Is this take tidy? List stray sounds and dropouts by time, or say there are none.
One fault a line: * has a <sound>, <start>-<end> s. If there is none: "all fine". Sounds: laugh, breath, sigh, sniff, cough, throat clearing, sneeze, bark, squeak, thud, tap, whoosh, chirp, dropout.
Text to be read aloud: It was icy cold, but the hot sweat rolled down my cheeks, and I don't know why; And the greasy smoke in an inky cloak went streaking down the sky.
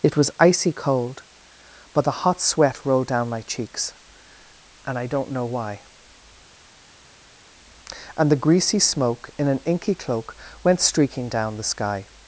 all fine